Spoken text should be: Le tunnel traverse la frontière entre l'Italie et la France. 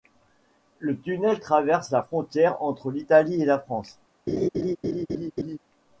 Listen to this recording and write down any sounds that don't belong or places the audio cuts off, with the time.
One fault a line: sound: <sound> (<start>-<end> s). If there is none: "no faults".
sound: laugh (4.3-5.6 s)